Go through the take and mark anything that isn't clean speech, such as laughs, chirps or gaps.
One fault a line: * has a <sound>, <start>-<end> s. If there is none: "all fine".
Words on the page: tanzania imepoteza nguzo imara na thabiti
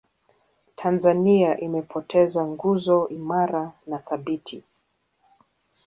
all fine